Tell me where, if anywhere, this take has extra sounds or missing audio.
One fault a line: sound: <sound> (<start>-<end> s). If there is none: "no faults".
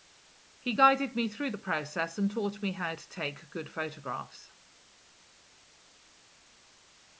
no faults